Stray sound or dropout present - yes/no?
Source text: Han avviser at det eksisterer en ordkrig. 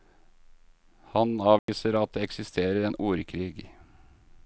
yes